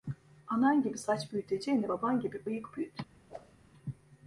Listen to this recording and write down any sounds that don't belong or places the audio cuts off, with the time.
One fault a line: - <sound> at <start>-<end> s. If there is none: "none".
- whoosh at 3.3-3.5 s